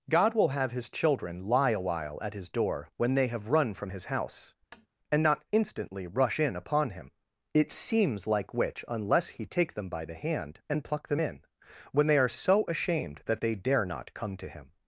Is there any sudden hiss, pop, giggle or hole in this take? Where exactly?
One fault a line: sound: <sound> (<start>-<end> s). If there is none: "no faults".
sound: tap (4.7-4.9 s)